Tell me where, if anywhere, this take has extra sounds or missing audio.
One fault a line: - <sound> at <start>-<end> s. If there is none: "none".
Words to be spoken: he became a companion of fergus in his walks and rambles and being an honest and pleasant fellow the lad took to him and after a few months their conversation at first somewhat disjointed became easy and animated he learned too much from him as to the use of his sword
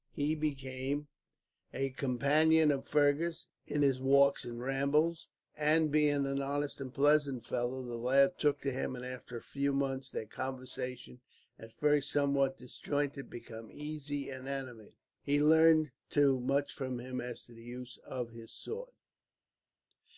none